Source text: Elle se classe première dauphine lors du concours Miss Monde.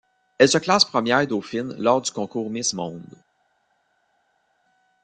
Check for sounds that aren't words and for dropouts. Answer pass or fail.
pass